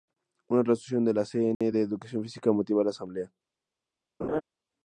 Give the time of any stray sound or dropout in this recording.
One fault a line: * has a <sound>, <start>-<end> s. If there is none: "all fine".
* has a dropout, 1.5-1.6 s
* has a laugh, 4.2-4.4 s